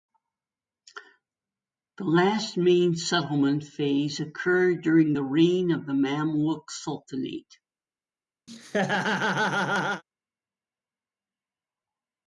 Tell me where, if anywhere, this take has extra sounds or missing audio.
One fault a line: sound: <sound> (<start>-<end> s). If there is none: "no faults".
sound: laugh (8.5-10.0 s)